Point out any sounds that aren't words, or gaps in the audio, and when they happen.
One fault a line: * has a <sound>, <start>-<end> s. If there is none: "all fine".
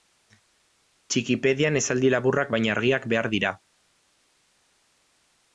all fine